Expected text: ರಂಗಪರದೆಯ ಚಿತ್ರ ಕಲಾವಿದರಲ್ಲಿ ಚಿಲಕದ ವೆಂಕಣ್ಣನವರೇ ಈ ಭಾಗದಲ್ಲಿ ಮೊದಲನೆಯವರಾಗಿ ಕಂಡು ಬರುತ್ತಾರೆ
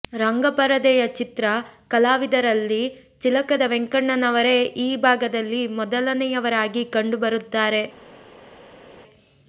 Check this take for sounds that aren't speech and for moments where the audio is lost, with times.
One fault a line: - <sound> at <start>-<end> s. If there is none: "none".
none